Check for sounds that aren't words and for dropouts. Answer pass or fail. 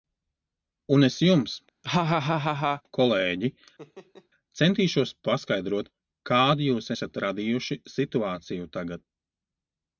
fail